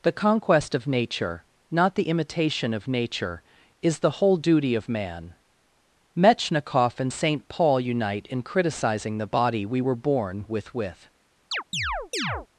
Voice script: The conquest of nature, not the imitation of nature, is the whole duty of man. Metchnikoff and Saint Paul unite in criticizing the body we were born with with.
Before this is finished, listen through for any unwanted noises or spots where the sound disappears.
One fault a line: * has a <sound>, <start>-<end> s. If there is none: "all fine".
* has a chirp, 11.5-12.5 s